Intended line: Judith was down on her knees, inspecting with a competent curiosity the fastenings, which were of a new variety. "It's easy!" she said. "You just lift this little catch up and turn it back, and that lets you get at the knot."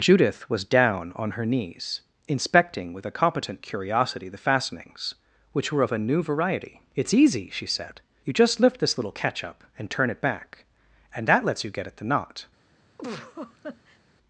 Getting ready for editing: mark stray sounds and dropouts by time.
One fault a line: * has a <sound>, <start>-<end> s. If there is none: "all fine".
* has a laugh, 13.0-14.0 s